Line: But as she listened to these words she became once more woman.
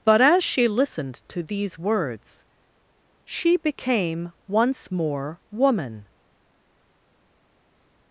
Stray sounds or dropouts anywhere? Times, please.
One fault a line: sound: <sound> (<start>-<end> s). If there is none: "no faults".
no faults